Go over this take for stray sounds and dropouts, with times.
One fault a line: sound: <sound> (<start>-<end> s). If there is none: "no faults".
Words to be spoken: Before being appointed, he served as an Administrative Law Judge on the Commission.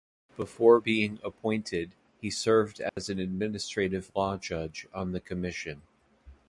sound: dropout (2.9-3.0 s)